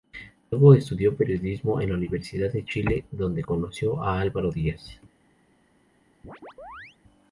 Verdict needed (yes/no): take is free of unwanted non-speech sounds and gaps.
no